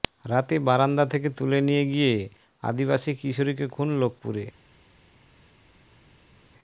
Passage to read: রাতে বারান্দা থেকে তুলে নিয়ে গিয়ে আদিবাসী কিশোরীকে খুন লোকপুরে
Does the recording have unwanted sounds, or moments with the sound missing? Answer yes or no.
no